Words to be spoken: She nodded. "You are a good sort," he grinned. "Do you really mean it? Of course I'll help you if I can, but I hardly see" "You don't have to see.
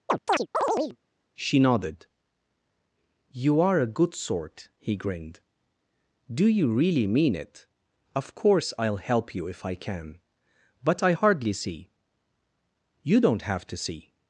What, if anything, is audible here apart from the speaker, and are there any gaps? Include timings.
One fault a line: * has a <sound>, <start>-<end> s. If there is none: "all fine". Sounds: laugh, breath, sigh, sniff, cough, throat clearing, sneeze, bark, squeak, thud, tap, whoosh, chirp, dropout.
* has a chirp, 0.1-1.0 s